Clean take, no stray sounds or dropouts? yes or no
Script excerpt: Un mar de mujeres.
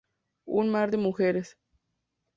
yes